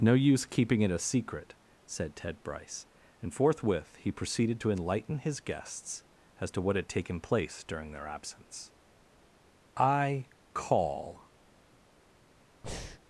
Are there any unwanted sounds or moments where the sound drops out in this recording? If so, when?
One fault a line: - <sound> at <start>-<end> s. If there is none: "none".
- breath at 12.6-13.0 s